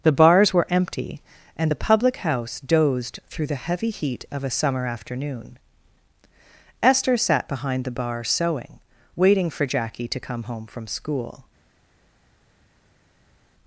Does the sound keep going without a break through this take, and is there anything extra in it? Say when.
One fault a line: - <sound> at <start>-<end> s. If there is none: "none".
none